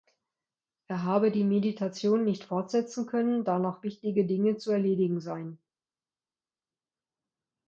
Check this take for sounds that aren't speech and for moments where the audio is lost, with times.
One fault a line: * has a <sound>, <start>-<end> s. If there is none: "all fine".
all fine